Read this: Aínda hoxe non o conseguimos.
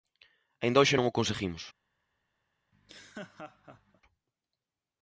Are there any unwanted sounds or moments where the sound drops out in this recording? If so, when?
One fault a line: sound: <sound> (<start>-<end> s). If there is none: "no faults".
sound: laugh (2.7-4.0 s)